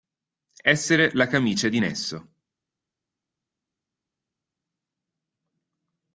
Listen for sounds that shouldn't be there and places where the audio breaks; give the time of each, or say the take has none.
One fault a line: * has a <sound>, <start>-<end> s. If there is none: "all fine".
all fine